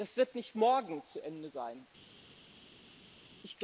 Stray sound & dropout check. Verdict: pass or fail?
pass